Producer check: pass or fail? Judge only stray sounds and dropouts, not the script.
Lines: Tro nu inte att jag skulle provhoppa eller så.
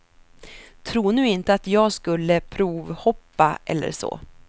pass